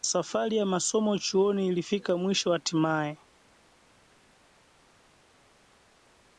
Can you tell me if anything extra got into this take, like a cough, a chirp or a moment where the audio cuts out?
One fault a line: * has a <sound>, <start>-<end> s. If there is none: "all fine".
all fine